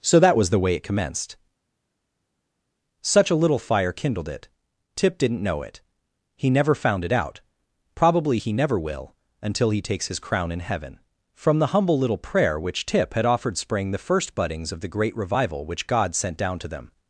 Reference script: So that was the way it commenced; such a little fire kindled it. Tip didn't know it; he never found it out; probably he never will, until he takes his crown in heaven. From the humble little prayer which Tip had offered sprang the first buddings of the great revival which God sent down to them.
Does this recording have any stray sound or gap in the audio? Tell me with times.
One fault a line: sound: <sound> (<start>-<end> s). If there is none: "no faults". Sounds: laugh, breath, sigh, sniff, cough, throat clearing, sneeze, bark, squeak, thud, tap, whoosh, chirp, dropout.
no faults